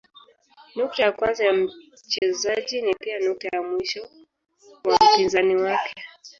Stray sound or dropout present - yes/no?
yes